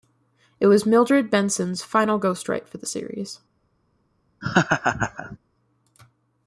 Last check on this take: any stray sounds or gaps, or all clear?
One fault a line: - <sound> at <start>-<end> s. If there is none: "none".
- laugh at 4.4-5.4 s